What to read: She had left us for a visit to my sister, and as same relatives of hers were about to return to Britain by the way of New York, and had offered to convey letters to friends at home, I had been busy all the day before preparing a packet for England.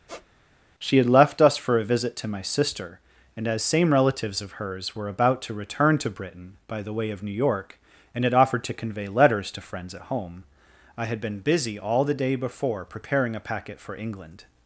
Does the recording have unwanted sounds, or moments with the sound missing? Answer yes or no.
yes